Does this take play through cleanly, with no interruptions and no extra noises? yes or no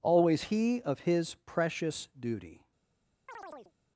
no